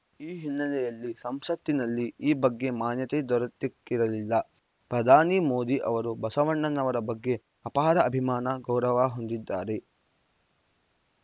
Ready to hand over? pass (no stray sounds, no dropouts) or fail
pass